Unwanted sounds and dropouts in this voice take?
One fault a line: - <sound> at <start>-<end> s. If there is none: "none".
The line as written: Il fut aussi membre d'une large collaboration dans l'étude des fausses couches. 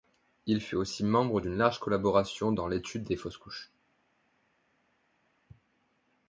none